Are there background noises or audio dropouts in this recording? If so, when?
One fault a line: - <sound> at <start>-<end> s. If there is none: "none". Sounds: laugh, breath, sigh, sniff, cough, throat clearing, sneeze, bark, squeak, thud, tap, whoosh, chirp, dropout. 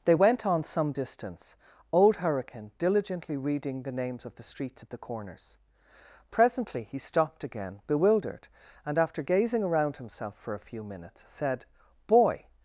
none